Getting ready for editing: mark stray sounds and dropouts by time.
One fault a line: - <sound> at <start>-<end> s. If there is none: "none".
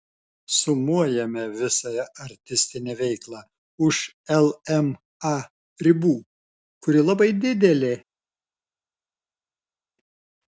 none